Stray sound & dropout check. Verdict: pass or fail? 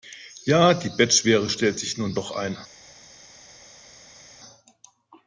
pass